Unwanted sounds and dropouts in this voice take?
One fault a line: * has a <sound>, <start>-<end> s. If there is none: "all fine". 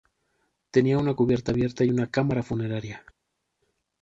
all fine